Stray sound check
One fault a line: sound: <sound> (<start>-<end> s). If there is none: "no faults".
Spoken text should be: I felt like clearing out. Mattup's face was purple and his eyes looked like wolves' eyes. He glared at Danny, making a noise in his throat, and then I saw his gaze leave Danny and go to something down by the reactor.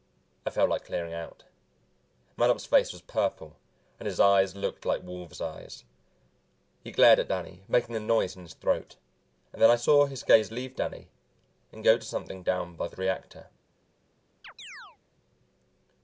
sound: chirp (14.4-15.0 s)